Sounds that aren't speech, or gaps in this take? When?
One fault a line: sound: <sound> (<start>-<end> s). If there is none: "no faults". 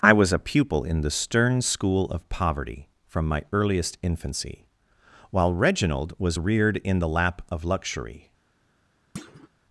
sound: thud (9.2-9.5 s)